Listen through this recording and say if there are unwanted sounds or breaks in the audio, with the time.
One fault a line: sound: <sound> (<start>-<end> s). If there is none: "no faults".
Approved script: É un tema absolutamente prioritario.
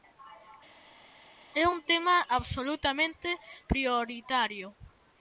no faults